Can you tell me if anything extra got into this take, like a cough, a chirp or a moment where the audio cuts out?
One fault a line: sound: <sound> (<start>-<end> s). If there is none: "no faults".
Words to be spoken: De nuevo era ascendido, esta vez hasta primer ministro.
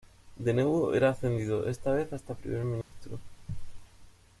sound: dropout (2.8-2.9 s)